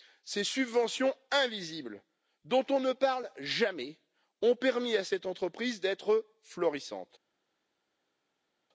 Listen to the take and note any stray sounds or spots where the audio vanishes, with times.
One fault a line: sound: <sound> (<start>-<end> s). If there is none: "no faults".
no faults